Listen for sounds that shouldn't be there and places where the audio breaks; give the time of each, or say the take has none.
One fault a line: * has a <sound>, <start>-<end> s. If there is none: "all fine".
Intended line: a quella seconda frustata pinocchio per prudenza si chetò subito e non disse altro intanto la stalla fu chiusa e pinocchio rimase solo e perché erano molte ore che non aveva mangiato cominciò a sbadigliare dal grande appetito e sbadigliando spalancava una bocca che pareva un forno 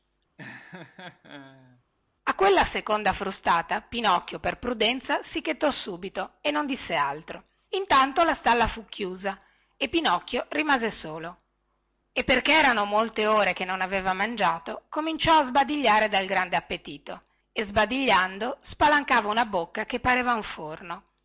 * has a laugh, 0.4-1.8 s